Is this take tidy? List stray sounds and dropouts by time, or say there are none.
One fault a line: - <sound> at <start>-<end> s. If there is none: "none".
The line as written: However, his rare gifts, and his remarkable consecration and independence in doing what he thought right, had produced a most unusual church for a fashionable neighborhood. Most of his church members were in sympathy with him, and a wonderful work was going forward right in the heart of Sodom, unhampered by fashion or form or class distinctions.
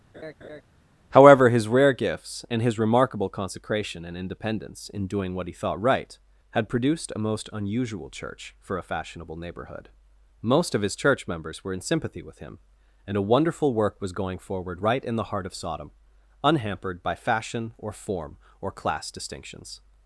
- laugh at 0.1-0.6 s